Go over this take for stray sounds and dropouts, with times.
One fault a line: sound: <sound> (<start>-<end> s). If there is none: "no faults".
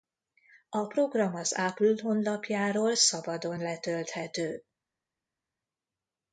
no faults